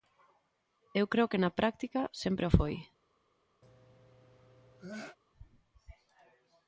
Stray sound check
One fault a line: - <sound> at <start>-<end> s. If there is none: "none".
- sneeze at 3.6-5.2 s